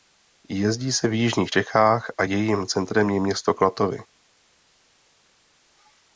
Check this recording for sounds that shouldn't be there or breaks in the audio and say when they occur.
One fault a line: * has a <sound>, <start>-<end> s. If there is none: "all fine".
all fine